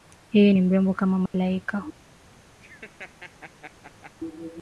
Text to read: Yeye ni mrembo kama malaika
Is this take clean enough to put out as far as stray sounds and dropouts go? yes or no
no